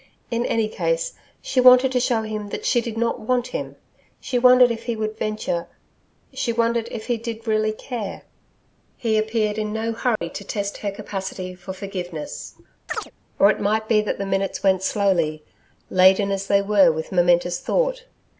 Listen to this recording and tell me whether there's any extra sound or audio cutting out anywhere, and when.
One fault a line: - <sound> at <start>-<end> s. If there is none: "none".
- dropout at 10.2-10.2 s
- chirp at 12.9-13.1 s